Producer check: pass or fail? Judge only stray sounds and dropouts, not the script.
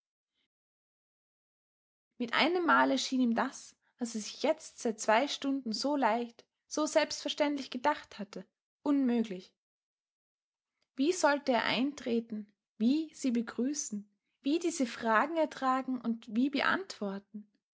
pass